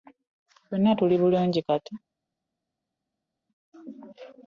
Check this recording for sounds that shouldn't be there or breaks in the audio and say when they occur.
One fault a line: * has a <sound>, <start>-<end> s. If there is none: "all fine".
all fine